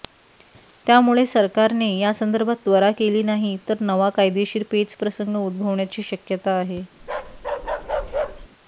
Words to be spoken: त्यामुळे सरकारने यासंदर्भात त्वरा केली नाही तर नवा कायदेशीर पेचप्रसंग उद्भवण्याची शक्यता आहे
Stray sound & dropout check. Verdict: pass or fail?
fail